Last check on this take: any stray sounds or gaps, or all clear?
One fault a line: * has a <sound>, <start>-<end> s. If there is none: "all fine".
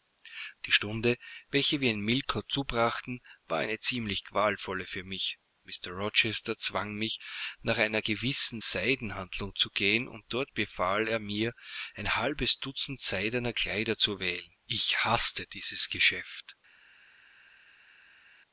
all fine